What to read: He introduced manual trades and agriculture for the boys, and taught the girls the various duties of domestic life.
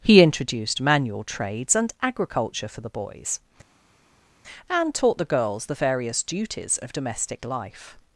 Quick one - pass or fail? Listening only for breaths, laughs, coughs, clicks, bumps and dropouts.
pass